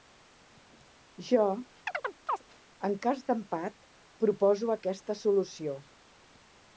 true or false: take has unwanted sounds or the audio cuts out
true